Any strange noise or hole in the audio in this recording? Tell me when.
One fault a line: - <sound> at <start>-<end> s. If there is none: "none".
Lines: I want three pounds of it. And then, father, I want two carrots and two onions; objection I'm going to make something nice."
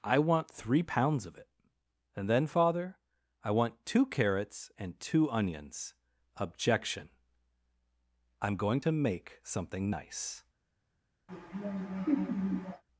- laugh at 11.3-12.8 s